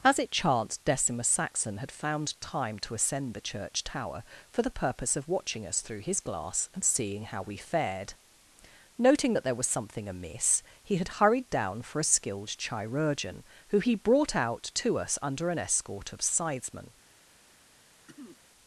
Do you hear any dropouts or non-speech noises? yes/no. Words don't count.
yes